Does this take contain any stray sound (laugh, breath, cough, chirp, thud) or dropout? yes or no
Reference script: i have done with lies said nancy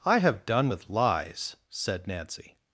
no